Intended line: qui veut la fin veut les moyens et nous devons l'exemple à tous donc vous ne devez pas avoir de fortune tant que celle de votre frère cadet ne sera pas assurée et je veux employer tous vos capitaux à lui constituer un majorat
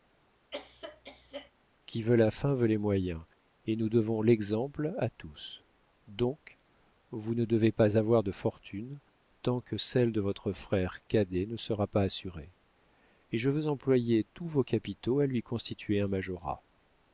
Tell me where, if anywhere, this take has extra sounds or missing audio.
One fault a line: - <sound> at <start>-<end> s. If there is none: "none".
- cough at 0.5-1.5 s